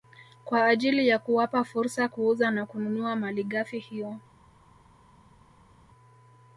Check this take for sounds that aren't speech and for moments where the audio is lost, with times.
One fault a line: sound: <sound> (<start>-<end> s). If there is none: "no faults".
no faults